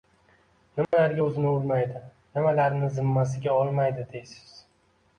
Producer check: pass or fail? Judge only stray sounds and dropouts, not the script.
fail